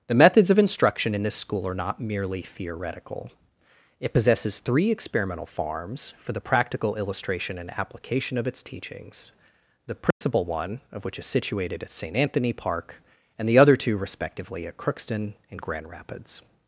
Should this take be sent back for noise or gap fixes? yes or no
yes